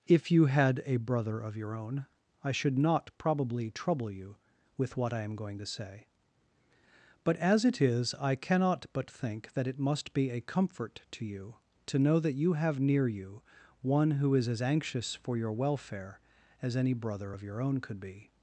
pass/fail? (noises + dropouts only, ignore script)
pass